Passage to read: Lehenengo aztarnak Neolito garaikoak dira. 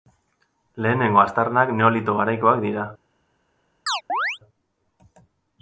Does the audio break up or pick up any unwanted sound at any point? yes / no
yes